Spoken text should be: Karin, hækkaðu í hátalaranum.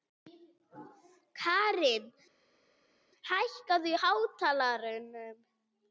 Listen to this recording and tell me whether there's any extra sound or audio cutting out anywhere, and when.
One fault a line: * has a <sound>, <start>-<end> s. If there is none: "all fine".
all fine